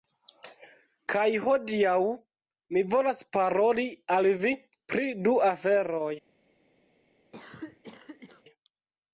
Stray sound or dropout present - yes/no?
yes